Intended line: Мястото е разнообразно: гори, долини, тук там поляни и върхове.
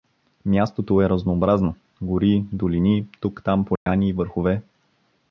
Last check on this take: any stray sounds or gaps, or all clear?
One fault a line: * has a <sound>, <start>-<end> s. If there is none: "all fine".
* has a dropout, 3.8-3.9 s